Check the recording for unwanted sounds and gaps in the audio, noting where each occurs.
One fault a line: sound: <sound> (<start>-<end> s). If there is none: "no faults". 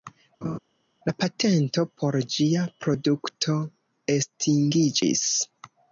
sound: laugh (0.4-0.6 s)